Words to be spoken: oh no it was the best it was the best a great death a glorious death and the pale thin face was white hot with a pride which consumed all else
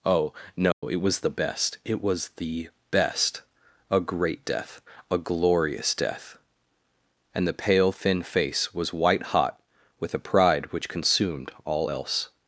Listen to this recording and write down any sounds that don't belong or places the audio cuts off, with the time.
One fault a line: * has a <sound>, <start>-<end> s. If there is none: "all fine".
* has a dropout, 0.7-0.8 s